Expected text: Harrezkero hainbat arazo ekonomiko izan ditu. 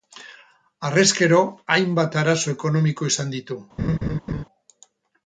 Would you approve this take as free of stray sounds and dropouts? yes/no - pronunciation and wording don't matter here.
no